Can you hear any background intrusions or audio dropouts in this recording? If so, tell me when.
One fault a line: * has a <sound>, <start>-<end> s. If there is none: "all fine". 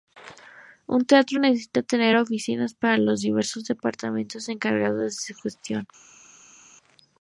all fine